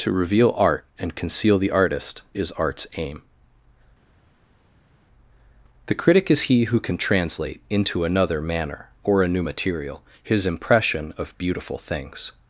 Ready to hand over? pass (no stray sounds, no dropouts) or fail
pass